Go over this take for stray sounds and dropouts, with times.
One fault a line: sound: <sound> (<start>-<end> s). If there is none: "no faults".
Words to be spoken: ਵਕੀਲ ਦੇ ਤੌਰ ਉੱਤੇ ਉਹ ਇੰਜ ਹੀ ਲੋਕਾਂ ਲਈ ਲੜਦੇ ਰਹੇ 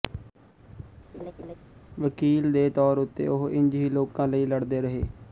sound: laugh (1.1-1.5 s)